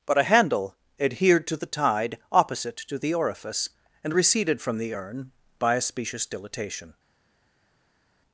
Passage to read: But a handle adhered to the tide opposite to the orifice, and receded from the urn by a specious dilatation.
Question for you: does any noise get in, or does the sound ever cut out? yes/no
no